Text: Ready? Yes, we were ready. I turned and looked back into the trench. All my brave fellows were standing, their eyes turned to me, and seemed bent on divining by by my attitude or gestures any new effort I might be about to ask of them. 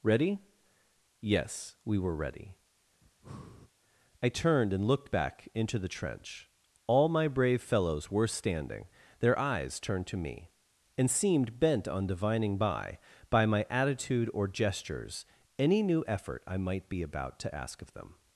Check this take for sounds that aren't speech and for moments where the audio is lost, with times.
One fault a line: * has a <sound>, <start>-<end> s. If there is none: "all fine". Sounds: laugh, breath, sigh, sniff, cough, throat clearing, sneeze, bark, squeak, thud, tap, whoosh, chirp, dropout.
* has a breath, 3.0-3.7 s